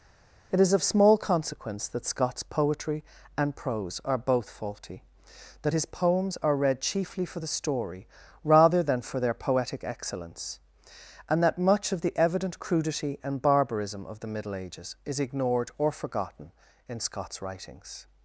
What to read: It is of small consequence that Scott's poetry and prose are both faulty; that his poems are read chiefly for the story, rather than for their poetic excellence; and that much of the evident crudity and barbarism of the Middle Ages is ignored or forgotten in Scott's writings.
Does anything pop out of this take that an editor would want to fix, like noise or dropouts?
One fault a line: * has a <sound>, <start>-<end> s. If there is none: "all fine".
all fine